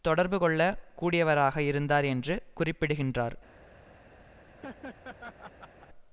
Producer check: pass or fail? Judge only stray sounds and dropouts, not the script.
fail